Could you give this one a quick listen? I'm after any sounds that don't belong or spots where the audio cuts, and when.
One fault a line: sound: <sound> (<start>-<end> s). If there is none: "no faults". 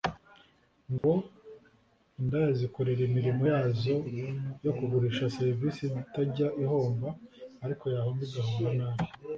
sound: dropout (1.0-1.0 s)